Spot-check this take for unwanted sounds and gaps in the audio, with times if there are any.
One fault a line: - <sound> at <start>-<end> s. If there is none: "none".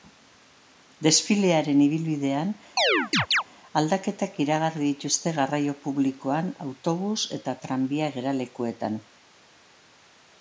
- chirp at 2.8-3.4 s